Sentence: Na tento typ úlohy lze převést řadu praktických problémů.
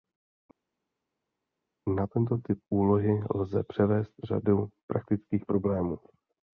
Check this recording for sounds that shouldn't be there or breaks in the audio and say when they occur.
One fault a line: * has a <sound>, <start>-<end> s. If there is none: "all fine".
all fine